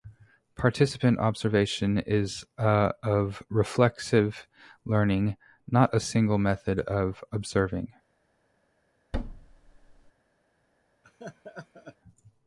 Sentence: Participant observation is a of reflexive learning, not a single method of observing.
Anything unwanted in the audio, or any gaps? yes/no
yes